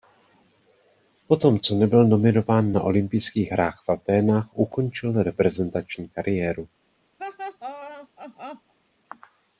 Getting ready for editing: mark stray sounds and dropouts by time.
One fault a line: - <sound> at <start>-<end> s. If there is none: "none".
- laugh at 7.2-8.7 s